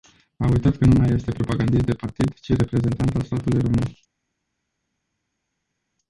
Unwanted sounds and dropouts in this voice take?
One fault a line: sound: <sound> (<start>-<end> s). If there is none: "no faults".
no faults